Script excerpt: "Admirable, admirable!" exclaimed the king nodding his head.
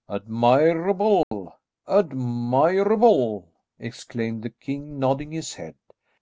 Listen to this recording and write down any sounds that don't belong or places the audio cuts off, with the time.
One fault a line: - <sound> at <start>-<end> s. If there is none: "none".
- dropout at 1.2-1.3 s